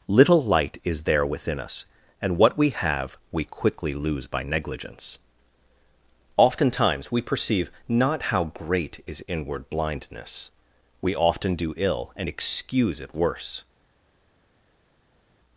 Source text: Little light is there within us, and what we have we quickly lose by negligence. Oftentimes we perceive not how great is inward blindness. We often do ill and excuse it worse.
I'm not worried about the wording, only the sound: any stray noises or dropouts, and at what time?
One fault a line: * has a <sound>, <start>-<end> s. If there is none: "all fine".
all fine